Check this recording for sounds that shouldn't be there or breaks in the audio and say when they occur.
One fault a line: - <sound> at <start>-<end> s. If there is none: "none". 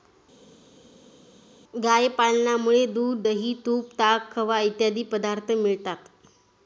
none